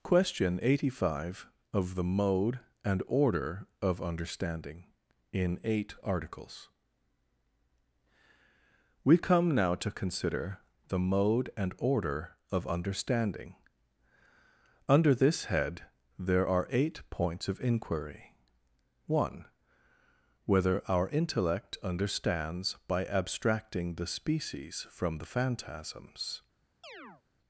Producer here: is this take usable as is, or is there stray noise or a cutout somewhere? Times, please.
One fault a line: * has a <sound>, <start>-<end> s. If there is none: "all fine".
* has a chirp, 26.8-27.2 s